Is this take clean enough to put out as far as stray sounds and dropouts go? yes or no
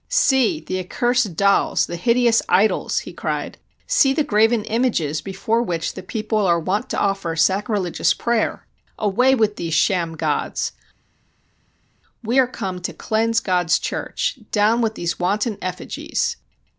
yes